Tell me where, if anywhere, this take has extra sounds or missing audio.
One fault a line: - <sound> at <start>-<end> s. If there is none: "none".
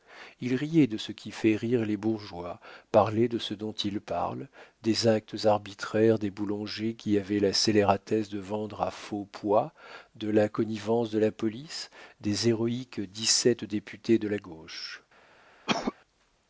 - cough at 15.7-15.9 s